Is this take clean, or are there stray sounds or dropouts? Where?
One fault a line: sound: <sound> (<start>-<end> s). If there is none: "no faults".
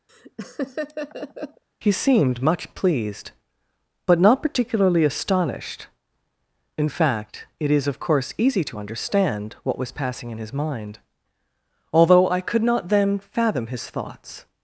sound: laugh (0.1-1.6 s)